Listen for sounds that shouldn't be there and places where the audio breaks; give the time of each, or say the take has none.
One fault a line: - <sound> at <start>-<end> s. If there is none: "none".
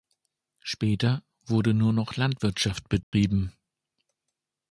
- dropout at 3.0-3.1 s